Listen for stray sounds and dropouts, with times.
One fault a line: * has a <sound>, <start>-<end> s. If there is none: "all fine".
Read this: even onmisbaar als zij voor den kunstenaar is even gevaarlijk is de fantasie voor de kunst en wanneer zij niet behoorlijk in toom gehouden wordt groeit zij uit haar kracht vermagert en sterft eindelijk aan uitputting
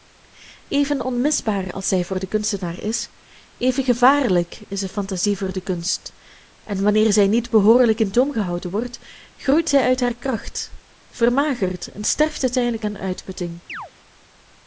* has a chirp, 13.7-13.9 s